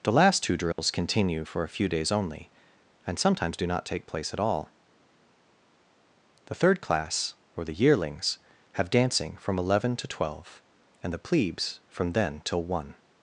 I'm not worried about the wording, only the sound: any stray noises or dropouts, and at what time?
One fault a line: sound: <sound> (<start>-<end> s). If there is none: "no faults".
sound: dropout (0.7-0.8 s)